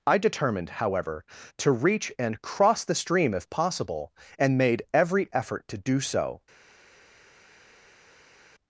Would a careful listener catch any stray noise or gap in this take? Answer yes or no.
no